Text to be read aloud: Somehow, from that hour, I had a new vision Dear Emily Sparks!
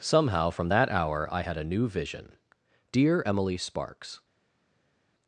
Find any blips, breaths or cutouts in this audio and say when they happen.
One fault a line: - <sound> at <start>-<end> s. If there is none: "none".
none